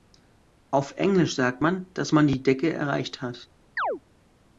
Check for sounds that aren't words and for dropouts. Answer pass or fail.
fail